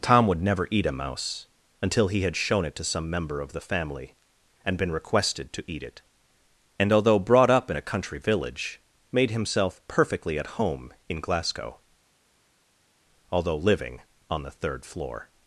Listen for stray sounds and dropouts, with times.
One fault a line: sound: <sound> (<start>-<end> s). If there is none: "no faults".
no faults